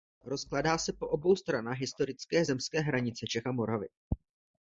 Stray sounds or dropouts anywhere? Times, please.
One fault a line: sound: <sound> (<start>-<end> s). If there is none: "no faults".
no faults